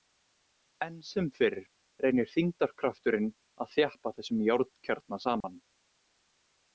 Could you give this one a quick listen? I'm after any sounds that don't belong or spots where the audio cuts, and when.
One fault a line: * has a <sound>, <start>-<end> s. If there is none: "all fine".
* has a dropout, 5.4-5.4 s